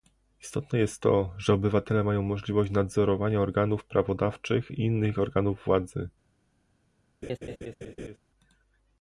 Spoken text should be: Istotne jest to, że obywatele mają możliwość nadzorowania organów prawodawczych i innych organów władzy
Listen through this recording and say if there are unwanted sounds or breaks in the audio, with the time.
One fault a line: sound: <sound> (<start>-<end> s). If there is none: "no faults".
sound: laugh (7.2-8.2 s)